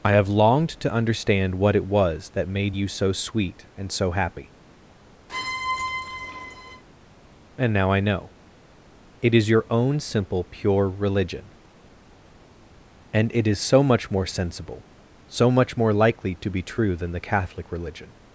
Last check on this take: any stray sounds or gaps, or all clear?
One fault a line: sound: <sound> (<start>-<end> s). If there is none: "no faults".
sound: squeak (5.3-6.8 s)